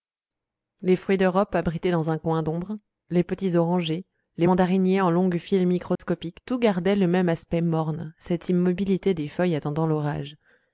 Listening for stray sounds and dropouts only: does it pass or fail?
fail